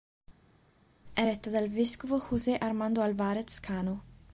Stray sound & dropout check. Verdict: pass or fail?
pass